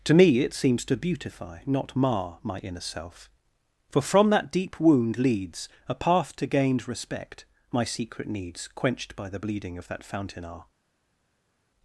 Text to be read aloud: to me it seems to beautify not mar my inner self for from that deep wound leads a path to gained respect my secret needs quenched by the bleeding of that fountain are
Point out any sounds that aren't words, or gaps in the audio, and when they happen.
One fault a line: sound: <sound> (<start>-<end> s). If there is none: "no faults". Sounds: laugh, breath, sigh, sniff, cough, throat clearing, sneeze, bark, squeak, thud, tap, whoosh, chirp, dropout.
no faults